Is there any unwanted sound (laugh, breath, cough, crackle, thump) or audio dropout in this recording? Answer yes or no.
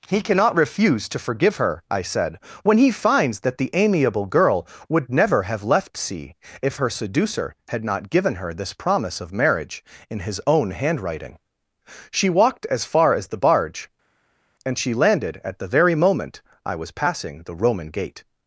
no